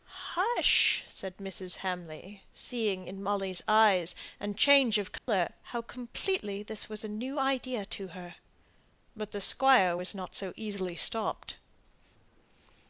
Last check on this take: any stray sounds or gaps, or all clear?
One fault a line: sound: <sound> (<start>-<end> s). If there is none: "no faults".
sound: dropout (5.2-5.3 s)